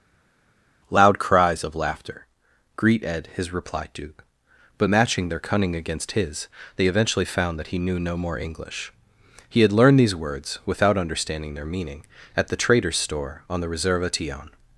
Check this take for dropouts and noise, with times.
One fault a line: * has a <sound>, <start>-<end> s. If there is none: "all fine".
all fine